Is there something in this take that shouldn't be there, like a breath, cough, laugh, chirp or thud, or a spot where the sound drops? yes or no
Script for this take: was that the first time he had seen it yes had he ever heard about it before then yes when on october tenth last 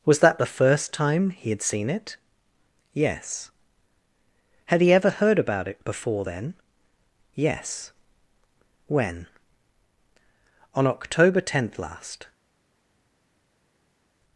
no